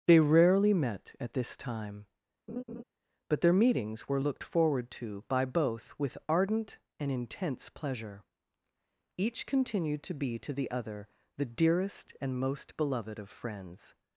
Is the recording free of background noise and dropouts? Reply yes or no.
no